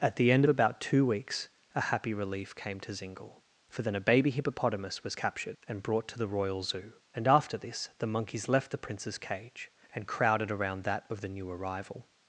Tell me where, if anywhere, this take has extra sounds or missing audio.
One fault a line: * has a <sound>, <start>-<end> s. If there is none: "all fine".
all fine